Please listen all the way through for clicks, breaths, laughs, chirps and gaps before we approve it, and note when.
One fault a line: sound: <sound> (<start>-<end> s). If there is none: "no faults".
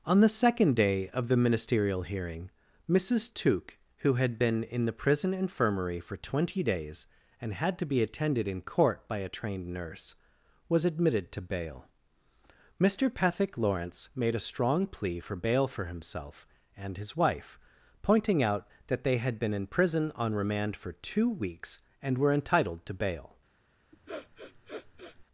sound: sniff (23.9-25.3 s)